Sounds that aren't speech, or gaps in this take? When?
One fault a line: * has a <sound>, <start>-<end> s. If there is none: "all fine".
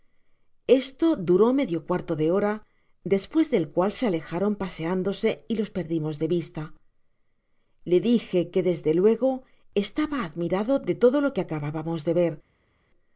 all fine